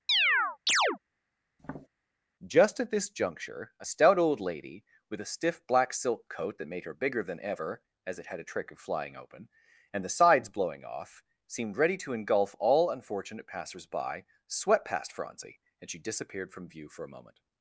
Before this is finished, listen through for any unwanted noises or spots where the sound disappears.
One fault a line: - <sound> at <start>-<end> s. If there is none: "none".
- chirp at 0.1-1.0 s
- tap at 1.6-1.9 s